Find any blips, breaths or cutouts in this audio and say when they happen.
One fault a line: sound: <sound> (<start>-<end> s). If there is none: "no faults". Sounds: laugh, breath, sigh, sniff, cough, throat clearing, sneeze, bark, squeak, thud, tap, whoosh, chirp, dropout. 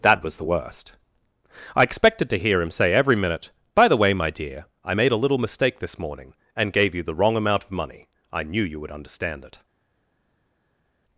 no faults